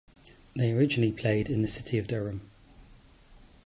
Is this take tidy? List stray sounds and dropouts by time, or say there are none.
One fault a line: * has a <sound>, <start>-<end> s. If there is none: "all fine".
all fine